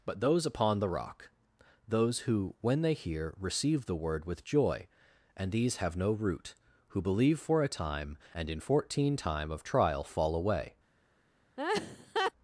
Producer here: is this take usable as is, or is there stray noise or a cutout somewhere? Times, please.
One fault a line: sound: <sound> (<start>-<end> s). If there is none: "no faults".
sound: laugh (11.6-12.3 s)